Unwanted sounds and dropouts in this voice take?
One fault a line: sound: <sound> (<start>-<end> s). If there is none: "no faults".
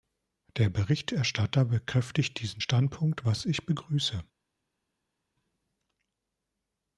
no faults